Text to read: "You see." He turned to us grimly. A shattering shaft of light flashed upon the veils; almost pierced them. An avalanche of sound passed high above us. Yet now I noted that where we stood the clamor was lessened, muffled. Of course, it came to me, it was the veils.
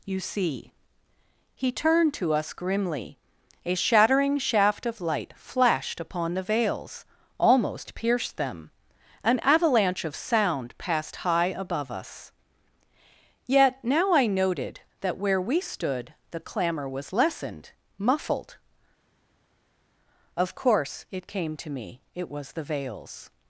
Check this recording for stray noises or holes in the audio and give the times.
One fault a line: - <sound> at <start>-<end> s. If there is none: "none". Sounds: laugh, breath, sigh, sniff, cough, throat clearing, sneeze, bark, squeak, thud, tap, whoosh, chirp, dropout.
none